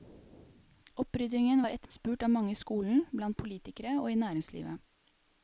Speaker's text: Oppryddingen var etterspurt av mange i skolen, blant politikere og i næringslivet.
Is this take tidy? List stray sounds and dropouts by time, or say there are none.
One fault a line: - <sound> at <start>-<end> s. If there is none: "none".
- dropout at 1.9-1.9 s